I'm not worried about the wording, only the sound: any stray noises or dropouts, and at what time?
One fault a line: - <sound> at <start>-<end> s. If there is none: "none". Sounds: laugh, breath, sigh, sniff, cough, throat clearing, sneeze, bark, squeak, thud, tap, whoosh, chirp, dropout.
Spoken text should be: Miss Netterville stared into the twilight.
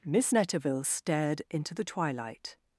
none